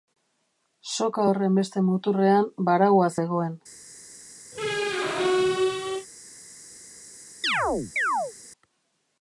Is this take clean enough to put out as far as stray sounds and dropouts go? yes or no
no